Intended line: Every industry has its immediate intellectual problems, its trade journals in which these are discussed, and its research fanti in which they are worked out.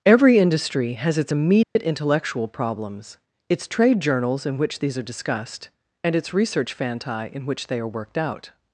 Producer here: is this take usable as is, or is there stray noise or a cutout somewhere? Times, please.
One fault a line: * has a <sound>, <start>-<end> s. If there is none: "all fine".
* has a dropout, 1.6-1.8 s